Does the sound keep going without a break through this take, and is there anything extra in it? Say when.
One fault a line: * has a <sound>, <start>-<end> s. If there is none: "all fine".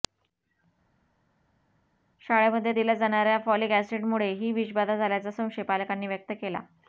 all fine